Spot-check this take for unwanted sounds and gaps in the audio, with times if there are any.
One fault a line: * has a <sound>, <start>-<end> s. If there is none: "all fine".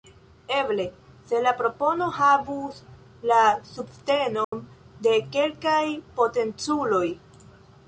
* has a dropout, 4.4-4.5 s